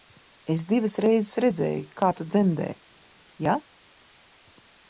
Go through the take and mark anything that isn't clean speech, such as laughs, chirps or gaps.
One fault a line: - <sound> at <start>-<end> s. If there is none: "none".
none